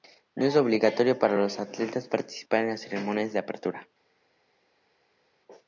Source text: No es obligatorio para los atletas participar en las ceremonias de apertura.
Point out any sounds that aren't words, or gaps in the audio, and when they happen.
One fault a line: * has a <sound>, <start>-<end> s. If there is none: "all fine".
all fine